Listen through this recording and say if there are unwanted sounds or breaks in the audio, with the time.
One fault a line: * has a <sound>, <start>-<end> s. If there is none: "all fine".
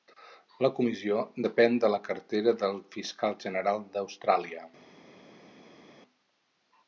all fine